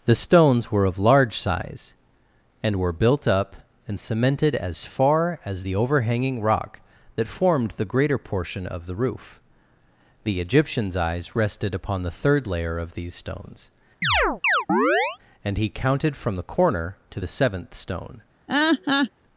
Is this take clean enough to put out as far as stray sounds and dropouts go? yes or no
no